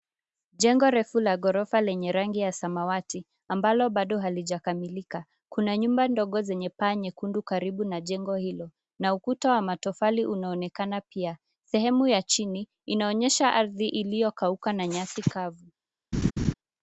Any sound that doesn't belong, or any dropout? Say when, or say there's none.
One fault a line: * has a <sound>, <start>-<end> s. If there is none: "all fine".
* has a laugh, 16.1-16.5 s